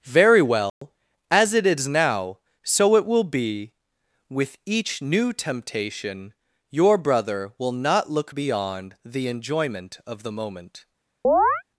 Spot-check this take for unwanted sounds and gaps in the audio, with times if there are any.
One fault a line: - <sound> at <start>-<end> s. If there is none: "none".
- dropout at 0.7-0.8 s
- chirp at 11.2-11.6 s